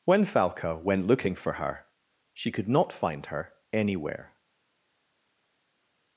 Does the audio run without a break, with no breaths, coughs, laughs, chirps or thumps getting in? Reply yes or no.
yes